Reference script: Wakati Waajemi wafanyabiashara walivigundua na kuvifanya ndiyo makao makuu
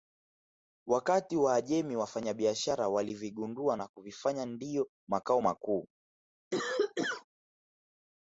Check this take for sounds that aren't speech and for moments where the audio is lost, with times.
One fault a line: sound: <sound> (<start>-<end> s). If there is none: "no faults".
sound: cough (6.5-7.3 s)